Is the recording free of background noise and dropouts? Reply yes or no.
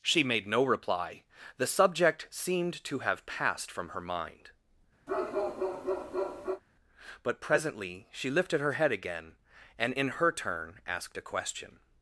no